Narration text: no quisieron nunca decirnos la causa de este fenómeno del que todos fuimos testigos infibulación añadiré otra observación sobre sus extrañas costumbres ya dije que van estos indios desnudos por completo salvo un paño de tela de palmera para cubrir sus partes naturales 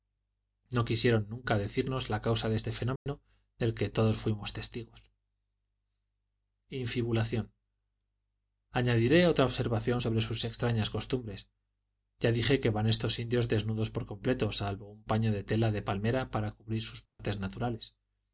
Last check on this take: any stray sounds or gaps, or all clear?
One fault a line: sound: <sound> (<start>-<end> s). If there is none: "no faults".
sound: dropout (3.0-3.1 s)
sound: dropout (17.1-17.2 s)